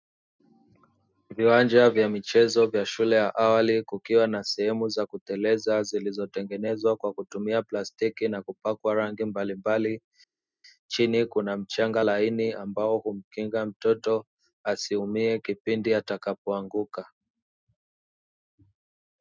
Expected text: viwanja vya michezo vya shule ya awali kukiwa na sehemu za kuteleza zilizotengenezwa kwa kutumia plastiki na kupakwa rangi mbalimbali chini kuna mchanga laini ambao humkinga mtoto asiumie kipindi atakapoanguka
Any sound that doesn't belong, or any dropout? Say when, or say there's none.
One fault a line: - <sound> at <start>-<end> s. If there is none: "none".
none